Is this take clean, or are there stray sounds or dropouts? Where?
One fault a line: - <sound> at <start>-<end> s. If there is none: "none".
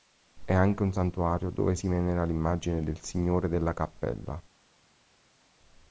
none